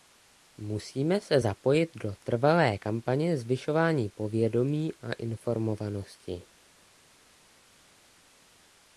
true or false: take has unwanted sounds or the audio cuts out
false